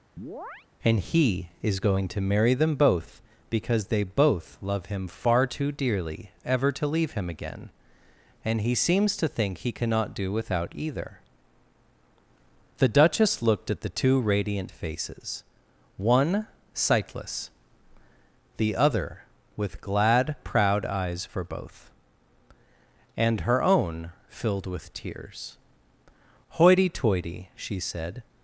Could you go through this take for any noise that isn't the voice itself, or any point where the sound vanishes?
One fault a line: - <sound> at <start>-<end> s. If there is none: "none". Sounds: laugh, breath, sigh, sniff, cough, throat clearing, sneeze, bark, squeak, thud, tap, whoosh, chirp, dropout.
- chirp at 0.2-0.7 s